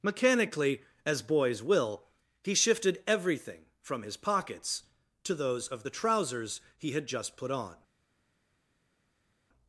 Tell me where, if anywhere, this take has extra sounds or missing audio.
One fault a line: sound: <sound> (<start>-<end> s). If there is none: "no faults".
no faults